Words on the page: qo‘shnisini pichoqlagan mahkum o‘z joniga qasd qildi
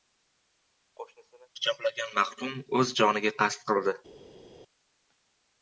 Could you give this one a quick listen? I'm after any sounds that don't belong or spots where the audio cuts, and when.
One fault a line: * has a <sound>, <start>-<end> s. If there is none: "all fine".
all fine